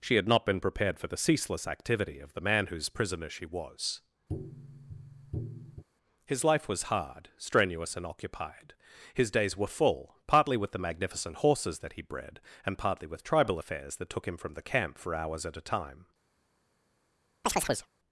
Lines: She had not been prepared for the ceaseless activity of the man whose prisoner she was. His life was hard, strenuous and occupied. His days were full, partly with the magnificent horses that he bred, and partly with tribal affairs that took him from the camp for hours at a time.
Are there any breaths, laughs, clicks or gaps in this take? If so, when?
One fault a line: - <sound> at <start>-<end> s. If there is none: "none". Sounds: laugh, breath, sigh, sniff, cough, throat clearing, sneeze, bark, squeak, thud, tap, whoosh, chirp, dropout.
- tap at 4.3-5.8 s
- chirp at 17.4-17.9 s